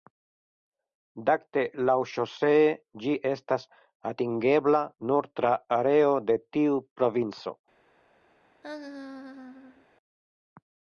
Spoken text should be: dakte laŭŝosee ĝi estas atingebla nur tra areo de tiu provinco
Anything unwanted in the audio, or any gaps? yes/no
yes